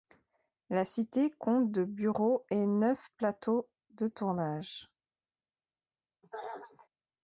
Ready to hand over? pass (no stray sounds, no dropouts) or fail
fail